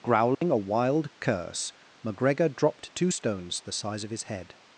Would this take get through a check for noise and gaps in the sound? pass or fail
fail